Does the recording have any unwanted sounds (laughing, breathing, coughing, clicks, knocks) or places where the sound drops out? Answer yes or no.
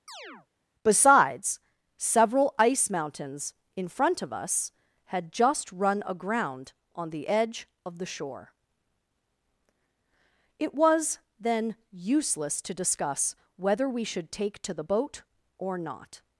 yes